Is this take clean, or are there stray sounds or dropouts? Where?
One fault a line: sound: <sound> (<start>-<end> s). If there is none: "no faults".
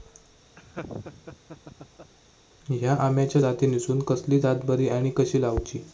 sound: laugh (0.6-2.1 s)